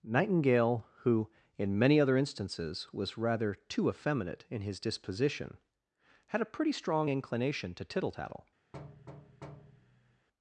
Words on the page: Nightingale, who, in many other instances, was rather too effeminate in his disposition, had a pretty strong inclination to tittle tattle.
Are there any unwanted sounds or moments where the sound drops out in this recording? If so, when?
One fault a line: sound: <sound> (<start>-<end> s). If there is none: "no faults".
sound: thud (8.7-10.3 s)